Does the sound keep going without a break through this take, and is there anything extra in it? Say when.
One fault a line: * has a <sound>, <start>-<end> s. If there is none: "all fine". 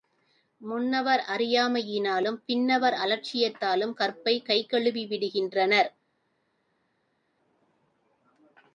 all fine